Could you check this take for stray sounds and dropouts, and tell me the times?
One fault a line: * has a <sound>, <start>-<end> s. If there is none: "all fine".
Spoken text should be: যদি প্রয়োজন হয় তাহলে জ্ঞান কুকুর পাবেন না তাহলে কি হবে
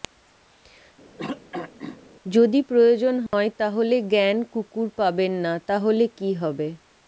* has a throat clearing, 1.2-2.0 s
* has a dropout, 3.3-3.3 s